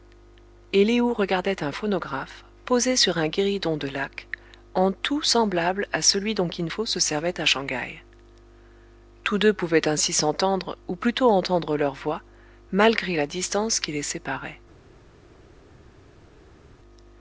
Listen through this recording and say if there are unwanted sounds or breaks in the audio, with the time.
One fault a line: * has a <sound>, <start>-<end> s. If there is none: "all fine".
all fine